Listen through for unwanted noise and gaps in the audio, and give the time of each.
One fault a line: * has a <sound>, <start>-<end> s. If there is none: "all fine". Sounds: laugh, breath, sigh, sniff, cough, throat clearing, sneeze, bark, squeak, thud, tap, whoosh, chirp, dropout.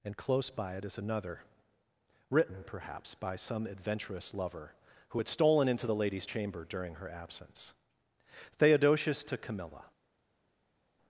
all fine